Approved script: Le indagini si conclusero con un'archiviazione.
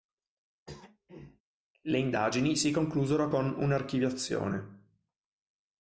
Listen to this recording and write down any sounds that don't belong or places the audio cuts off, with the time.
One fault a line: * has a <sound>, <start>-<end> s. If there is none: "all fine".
* has a throat clearing, 0.7-1.4 s